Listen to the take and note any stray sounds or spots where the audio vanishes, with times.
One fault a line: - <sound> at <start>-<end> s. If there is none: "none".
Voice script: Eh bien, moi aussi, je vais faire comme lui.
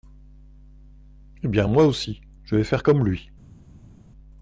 none